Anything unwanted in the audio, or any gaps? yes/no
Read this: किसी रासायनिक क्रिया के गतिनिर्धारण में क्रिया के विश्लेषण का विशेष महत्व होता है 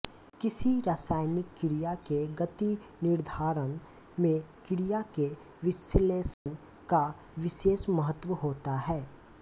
yes